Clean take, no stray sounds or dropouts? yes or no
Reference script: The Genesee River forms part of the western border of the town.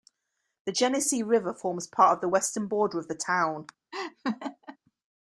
no